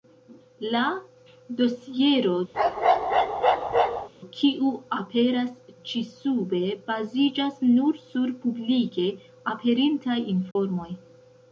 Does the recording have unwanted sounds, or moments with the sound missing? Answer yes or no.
yes